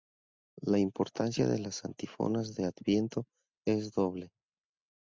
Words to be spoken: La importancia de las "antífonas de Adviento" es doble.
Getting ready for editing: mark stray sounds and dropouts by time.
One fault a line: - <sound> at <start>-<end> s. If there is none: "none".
none